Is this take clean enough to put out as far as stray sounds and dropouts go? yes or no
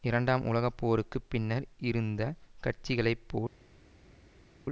yes